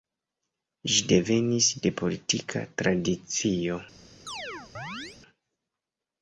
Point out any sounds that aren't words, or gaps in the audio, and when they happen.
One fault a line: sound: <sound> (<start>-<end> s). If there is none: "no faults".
sound: chirp (4.3-5.2 s)